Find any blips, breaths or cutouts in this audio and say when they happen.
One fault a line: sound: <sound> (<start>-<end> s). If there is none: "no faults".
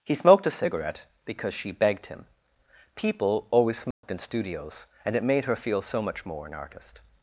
sound: dropout (3.9-4.0 s)